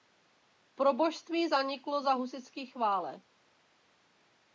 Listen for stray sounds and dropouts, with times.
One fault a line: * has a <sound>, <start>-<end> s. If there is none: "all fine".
all fine